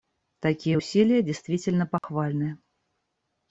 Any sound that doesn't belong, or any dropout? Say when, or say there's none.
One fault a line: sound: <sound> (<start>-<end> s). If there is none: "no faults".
sound: dropout (2.0-2.0 s)